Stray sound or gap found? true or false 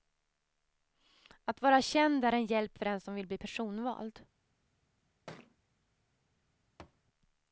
true